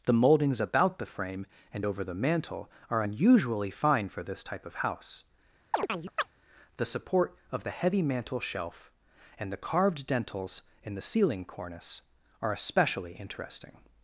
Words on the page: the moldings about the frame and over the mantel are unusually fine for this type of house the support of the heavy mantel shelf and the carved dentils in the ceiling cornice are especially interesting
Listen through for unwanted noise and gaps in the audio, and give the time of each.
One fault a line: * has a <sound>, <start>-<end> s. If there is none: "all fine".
* has a chirp, 5.7-6.3 s